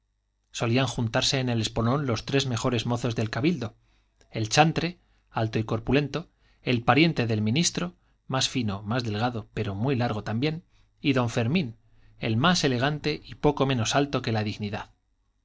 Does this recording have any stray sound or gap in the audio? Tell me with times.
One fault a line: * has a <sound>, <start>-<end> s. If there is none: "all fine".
all fine